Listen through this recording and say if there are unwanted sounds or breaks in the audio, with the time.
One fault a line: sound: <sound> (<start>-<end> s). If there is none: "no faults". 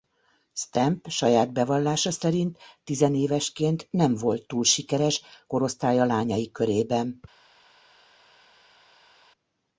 no faults